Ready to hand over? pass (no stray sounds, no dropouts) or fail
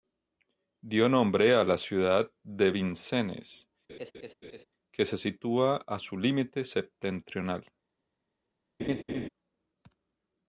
fail